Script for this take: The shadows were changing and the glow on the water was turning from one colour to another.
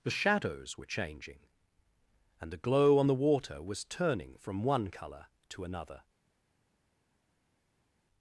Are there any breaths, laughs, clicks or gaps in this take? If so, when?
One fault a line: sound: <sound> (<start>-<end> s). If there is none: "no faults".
no faults